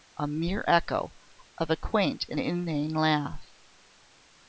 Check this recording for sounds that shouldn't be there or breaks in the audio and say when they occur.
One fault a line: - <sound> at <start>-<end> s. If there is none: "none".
none